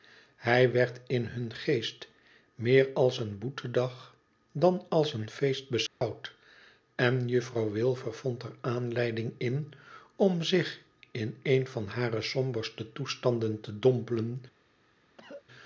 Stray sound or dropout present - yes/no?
yes